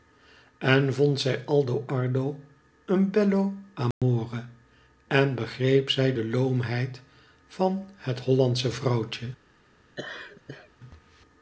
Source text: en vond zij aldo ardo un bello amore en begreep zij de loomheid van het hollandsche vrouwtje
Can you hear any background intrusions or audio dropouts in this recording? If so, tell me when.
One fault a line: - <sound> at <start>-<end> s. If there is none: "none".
- dropout at 3.9-4.0 s
- laugh at 10.0-10.7 s